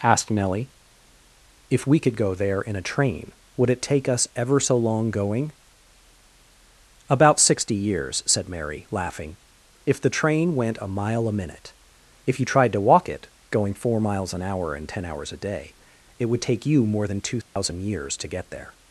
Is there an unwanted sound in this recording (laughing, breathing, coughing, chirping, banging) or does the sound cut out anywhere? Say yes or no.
yes